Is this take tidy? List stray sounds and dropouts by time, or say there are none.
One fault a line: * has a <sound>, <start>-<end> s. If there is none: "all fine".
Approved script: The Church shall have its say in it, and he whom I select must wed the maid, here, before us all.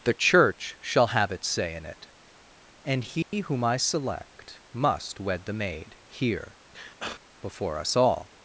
* has a dropout, 3.2-3.3 s
* has a sneeze, 6.7-7.2 s